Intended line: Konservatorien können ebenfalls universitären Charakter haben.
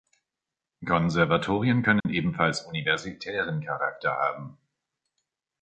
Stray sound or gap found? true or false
true